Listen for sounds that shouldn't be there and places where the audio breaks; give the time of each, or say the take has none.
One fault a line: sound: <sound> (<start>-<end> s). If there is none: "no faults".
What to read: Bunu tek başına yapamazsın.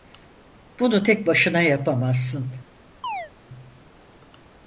sound: chirp (3.0-3.3 s)